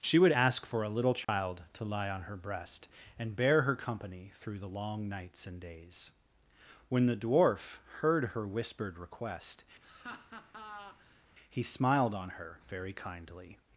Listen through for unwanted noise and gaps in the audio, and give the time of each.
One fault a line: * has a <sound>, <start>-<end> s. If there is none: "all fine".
* has a dropout, 1.2-1.3 s
* has a laugh, 9.8-11.2 s